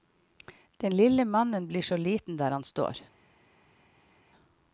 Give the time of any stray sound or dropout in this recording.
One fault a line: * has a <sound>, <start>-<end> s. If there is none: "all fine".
all fine